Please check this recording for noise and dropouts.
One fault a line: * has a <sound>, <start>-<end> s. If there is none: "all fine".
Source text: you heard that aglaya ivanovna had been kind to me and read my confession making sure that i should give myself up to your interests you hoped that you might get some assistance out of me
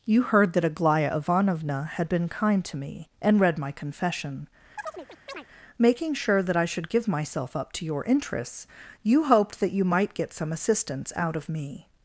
* has a chirp, 4.8-5.5 s